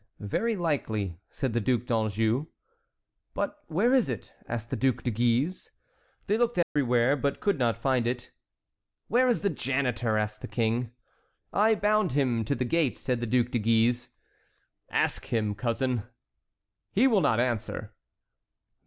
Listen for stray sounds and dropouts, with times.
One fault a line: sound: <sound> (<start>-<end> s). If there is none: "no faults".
sound: dropout (6.6-6.8 s)